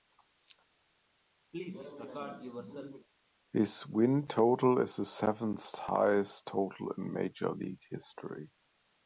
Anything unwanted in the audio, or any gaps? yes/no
yes